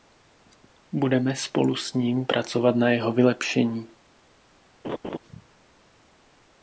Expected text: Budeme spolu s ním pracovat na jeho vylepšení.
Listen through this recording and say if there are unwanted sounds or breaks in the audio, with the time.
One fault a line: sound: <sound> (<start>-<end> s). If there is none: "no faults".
sound: laugh (4.8-5.2 s)